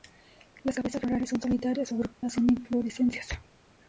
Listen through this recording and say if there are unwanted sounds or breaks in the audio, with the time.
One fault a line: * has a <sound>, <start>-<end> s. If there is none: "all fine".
* has a dropout, 2.1-2.2 s